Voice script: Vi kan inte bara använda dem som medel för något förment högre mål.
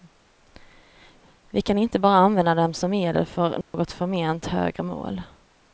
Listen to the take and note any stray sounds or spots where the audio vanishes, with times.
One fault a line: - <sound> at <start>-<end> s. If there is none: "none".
- dropout at 3.6-3.7 s